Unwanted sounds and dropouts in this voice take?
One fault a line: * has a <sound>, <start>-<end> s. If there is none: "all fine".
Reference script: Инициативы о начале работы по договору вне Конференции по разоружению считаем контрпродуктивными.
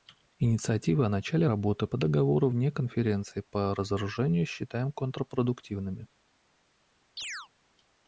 * has a chirp, 7.2-7.5 s